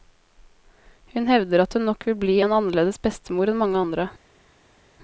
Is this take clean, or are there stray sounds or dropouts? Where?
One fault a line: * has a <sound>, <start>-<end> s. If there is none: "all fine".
all fine